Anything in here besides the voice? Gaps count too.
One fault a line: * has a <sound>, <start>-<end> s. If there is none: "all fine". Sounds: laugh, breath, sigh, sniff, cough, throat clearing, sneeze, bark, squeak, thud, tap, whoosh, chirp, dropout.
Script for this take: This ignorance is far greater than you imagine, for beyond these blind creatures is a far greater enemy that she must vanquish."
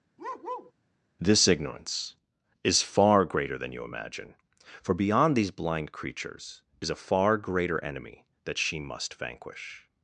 * has a bark, 0.2-0.7 s